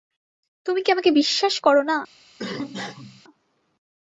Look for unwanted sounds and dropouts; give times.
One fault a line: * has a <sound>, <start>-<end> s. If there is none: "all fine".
* has a cough, 2.4-3.2 s